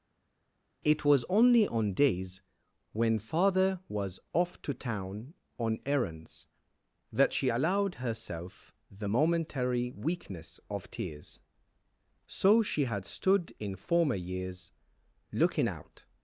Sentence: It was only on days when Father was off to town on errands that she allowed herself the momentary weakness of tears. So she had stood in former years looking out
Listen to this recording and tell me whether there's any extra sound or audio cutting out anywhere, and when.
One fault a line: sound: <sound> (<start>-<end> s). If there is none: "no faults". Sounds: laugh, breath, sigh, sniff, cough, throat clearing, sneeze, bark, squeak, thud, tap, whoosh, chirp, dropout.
no faults